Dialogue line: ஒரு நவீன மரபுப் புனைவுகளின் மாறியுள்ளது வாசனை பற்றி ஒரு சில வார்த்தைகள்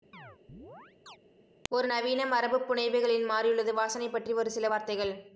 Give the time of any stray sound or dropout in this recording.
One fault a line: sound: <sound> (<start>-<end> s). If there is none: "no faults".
sound: chirp (0.1-1.2 s)